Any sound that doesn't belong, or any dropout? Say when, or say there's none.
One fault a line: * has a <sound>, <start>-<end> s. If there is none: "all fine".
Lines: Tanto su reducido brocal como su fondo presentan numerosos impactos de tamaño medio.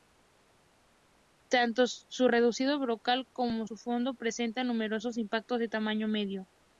all fine